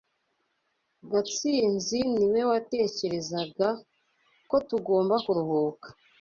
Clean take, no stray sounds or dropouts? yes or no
yes